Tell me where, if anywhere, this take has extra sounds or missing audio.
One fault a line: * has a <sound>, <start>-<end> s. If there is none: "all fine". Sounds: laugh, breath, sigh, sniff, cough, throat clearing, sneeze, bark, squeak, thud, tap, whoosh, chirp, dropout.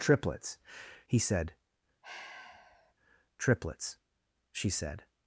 * has a sigh, 2.0-2.9 s